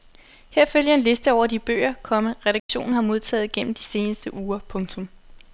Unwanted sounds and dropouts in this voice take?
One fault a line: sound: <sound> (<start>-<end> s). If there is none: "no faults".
sound: dropout (2.6-2.7 s)